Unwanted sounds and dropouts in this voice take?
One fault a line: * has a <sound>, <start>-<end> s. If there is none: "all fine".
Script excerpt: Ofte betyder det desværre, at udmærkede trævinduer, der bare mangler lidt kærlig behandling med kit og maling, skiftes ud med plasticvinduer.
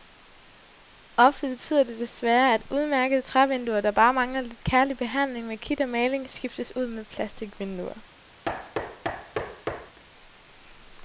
* has a thud, 8.4-10.0 s